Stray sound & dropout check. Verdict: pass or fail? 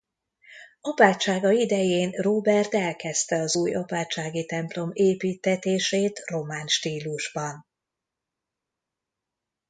pass